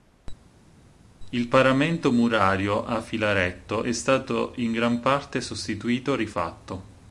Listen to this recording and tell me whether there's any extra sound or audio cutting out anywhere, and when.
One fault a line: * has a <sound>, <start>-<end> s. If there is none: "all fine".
all fine